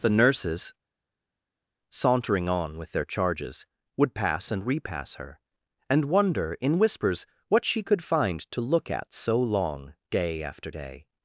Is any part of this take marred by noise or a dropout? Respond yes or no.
no